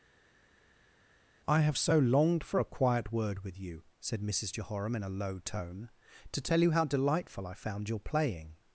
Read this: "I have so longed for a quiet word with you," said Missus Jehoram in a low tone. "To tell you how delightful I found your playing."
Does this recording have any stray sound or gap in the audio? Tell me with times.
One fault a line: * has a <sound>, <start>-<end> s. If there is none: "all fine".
all fine